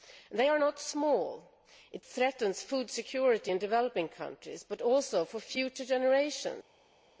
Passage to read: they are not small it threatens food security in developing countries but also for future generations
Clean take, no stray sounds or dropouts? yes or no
yes